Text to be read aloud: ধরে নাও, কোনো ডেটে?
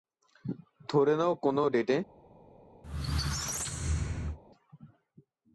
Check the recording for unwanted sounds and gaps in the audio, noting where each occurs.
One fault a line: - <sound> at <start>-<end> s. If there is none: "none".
- squeak at 2.8-4.4 s